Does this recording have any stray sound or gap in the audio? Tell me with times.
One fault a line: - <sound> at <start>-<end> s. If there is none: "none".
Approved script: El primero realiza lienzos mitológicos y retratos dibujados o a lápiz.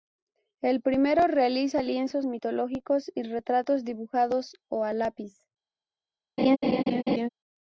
- laugh at 6.4-7.3 s